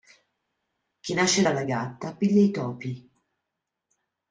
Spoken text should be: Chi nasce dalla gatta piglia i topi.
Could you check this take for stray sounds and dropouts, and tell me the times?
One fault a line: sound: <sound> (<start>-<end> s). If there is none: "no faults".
no faults